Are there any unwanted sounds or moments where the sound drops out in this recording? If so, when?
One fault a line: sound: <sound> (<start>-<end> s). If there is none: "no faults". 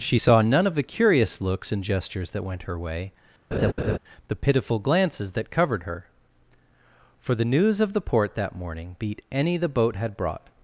sound: laugh (3.5-4.0 s)